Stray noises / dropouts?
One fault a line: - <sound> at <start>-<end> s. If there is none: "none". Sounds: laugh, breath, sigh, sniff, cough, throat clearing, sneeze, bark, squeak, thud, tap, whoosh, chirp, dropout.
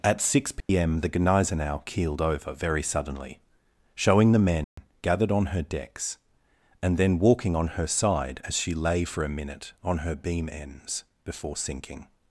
- dropout at 0.6-0.7 s
- dropout at 4.6-4.8 s